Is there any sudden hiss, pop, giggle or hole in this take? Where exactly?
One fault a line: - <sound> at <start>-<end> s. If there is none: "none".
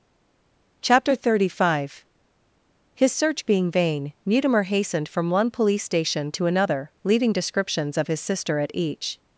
none